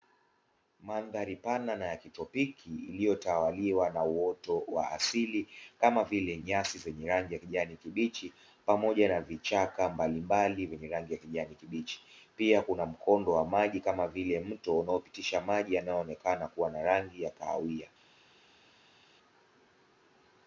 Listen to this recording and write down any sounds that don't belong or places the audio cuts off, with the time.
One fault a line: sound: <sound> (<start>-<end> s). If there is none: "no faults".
no faults